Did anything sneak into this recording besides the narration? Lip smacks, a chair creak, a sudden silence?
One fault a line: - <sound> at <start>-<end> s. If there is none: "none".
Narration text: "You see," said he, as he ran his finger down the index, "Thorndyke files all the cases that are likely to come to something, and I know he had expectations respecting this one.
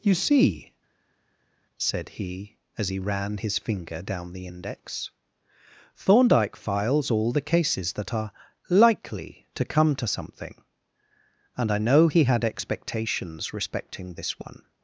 none